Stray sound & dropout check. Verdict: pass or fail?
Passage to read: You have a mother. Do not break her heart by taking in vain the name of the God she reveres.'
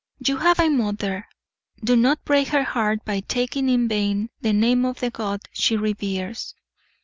pass